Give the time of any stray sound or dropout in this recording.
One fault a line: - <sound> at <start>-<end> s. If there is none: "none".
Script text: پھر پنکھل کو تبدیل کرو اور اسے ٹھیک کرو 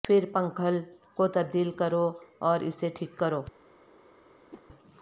- whoosh at 4.5-4.6 s